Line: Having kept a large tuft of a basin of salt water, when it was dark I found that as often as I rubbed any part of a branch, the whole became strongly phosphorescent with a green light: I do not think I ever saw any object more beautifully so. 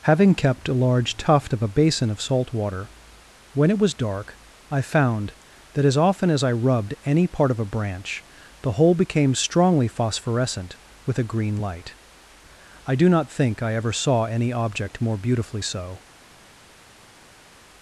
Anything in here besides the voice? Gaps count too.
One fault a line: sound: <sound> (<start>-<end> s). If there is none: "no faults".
no faults